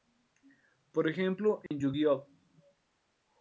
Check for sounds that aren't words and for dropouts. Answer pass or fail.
fail